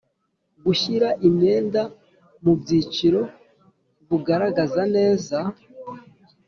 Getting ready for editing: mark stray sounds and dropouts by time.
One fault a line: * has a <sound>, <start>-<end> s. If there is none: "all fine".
all fine